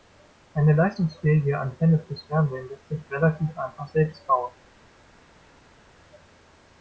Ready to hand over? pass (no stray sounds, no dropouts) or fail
pass